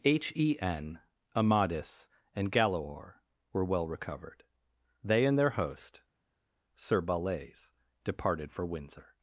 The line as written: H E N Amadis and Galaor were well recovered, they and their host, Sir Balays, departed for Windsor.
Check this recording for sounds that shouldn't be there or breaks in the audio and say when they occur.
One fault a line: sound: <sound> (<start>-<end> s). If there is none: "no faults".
no faults